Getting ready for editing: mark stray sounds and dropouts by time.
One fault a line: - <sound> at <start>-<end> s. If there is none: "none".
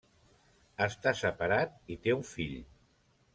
none